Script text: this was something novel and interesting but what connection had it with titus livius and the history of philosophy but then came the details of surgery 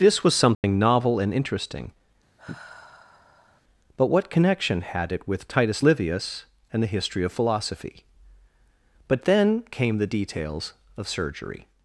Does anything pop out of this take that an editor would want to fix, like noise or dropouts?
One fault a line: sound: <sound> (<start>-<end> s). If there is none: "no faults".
sound: dropout (0.5-0.6 s)
sound: sigh (2.4-3.6 s)